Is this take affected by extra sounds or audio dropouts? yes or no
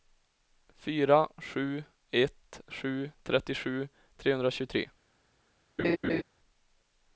yes